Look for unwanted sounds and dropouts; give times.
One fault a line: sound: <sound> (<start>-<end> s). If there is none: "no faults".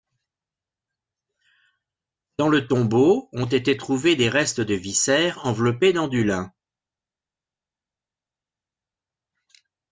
no faults